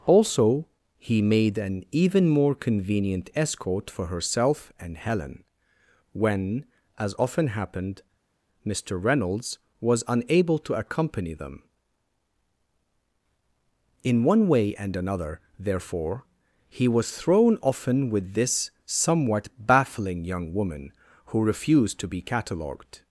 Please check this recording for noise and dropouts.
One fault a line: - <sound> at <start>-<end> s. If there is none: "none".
none